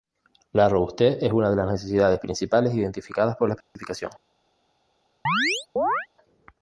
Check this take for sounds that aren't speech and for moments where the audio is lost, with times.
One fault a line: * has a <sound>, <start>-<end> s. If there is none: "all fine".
* has a dropout, 3.6-3.8 s
* has a chirp, 5.3-6.1 s